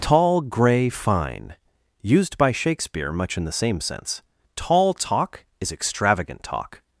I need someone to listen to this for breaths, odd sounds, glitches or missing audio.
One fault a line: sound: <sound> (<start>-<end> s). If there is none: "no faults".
no faults